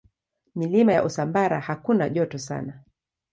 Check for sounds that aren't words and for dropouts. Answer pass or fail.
pass